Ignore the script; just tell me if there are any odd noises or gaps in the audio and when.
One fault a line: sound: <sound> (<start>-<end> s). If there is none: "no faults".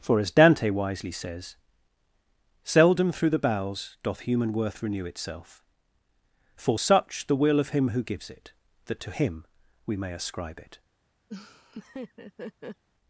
sound: laugh (11.3-12.8 s)